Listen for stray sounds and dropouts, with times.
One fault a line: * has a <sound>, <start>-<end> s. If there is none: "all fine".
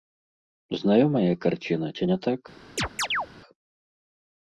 * has a chirp, 2.8-3.3 s